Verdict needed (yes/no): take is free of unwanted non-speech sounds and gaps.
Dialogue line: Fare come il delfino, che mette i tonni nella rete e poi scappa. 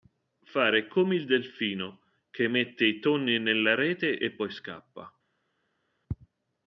yes